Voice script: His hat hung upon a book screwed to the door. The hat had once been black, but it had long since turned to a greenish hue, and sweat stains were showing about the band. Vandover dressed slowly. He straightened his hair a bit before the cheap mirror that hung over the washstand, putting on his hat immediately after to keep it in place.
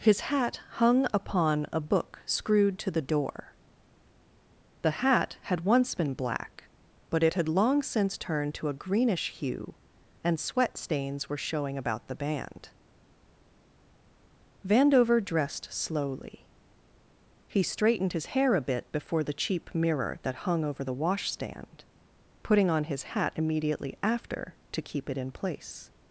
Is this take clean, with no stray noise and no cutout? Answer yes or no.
yes